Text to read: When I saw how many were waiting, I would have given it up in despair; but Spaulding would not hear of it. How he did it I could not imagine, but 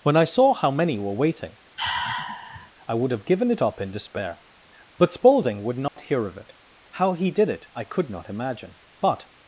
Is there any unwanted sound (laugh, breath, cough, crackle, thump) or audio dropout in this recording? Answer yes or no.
yes